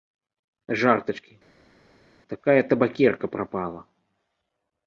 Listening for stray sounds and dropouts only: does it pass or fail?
pass